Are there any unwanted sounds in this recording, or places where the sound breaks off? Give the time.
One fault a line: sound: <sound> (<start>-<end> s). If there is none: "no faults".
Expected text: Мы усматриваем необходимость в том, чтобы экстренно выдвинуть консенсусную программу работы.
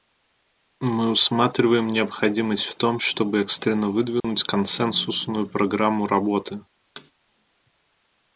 sound: dropout (4.2-4.2 s)
sound: thud (7.0-7.1 s)